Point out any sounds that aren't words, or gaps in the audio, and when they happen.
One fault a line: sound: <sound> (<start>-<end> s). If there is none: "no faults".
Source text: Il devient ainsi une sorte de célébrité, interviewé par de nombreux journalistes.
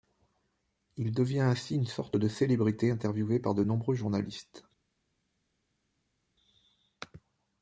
no faults